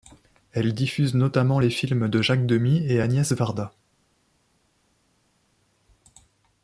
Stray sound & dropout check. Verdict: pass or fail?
pass